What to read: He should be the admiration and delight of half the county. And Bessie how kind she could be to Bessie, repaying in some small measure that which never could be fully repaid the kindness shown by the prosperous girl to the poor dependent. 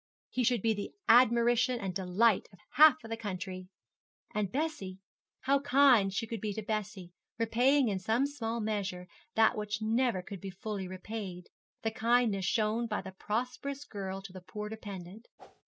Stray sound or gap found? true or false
true